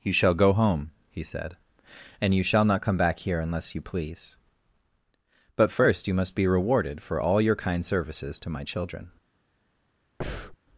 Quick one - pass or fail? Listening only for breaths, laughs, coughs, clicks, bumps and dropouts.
fail